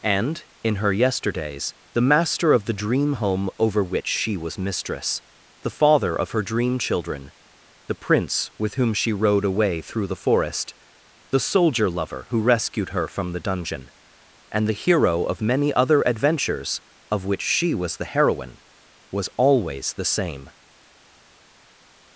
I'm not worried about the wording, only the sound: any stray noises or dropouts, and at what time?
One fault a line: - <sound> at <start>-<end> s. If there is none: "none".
none